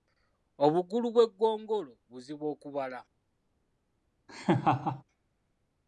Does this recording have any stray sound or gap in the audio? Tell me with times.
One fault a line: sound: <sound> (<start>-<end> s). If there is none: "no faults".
sound: laugh (4.3-5.0 s)